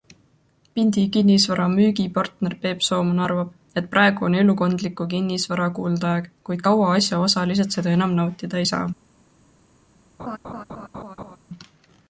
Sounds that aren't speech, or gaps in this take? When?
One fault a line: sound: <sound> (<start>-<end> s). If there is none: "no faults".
sound: laugh (10.2-11.4 s)